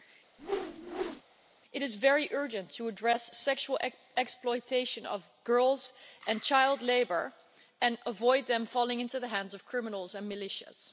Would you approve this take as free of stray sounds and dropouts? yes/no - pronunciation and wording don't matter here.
no